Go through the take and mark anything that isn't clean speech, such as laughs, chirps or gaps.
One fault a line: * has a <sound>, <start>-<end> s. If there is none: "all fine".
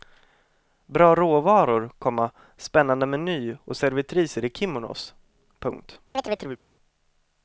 * has a chirp, 6.1-6.6 s